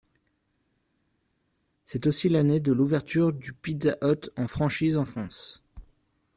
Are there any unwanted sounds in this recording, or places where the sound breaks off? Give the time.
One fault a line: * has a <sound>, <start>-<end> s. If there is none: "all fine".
all fine